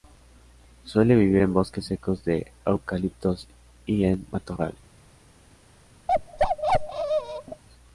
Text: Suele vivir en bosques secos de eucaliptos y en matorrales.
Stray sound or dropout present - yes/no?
yes